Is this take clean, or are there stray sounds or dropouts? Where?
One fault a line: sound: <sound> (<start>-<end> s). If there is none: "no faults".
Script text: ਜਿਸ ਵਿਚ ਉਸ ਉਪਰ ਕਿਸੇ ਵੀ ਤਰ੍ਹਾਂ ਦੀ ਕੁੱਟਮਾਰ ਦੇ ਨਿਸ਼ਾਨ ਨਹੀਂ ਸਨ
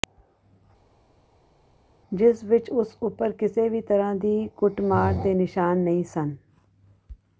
no faults